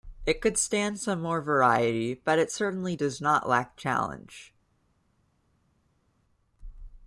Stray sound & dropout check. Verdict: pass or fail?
pass